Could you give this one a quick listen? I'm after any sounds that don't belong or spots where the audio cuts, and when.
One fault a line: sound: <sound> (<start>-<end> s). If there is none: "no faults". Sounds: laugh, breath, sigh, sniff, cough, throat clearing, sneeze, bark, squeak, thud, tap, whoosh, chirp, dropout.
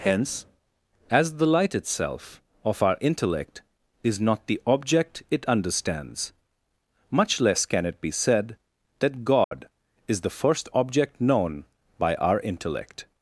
sound: dropout (9.4-9.5 s)